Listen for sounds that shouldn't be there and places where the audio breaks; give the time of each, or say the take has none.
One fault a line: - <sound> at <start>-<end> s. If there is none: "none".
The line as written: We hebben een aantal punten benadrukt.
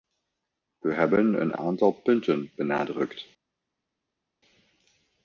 none